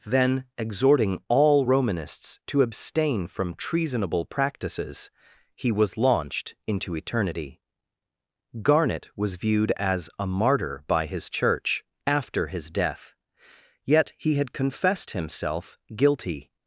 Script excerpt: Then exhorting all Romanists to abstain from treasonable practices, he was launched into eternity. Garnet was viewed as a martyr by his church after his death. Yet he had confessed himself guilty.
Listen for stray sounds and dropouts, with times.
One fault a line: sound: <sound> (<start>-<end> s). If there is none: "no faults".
no faults